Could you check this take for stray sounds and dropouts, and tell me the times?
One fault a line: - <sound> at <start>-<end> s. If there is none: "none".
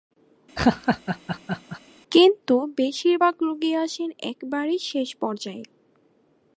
- laugh at 0.6-1.8 s